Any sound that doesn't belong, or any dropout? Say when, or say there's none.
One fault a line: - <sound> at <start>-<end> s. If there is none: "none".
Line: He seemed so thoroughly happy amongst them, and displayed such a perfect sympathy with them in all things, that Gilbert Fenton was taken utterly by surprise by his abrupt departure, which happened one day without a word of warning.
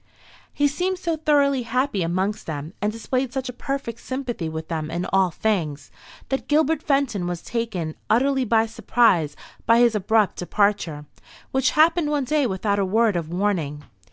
none